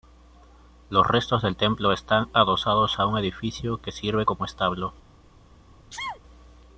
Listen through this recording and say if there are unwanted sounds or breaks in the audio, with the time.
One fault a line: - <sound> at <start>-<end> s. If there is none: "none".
- sneeze at 5.9-6.2 s